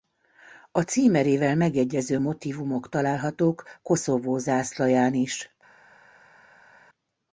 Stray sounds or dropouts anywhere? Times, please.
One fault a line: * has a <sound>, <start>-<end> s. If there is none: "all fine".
all fine